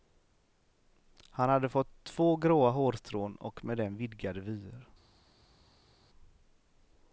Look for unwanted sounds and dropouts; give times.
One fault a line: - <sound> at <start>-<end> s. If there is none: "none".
none